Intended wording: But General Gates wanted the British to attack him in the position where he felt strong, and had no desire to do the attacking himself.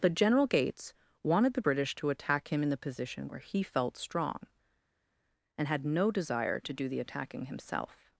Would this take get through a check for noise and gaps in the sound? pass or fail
pass